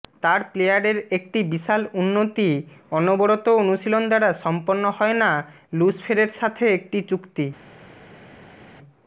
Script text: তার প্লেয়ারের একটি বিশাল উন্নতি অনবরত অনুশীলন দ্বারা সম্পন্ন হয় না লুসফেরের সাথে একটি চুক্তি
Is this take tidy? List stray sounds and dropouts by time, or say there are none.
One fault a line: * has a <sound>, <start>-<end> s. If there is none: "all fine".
all fine